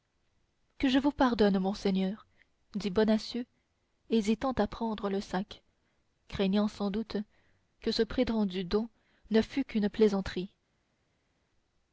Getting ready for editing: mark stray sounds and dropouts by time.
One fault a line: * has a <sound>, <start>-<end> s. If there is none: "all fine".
all fine